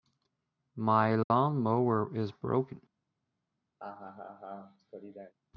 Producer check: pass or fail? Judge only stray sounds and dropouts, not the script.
fail